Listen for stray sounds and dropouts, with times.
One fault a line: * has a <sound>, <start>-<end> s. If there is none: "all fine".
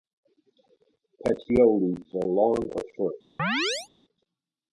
* has a chirp, 3.4-3.9 s